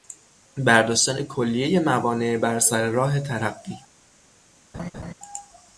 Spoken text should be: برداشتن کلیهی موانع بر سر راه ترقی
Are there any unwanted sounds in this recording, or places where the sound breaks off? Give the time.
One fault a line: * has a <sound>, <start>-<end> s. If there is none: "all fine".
* has a laugh, 4.7-5.1 s